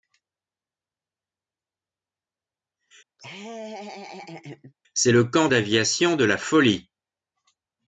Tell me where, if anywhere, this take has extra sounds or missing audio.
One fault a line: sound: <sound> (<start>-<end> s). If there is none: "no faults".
sound: laugh (3.2-4.7 s)